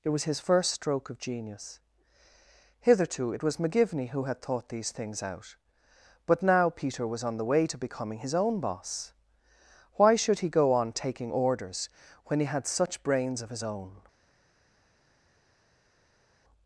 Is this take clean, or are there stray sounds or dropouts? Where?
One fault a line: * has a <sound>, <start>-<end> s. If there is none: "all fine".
all fine